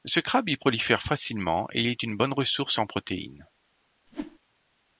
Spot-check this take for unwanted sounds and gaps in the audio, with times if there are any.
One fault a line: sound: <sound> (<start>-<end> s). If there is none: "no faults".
sound: whoosh (4.1-4.4 s)